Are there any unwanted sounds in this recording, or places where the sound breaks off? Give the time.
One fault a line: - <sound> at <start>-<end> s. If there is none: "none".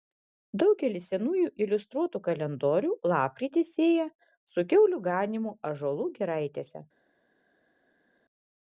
none